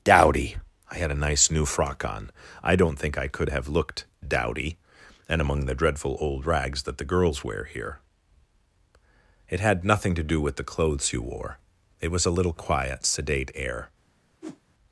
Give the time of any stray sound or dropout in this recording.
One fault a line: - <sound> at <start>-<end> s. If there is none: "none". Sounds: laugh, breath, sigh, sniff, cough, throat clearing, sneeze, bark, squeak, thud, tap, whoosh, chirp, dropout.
- whoosh at 14.4-14.6 s